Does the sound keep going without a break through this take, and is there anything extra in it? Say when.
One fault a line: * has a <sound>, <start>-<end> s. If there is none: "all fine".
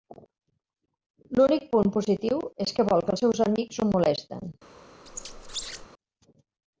* has a squeak, 5.1-5.9 s